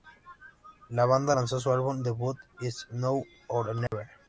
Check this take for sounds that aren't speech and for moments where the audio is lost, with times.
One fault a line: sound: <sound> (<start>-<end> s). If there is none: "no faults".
sound: dropout (3.9-3.9 s)